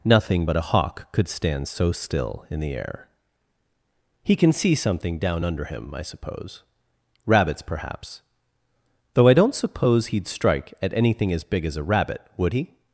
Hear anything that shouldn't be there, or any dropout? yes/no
no